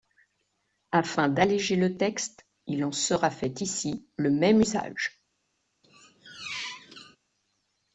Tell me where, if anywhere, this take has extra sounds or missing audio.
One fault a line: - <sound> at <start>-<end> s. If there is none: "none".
- squeak at 5.8-7.2 s